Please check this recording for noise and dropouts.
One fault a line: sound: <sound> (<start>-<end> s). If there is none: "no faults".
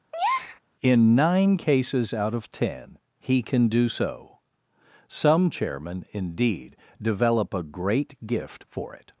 sound: breath (0.1-0.6 s)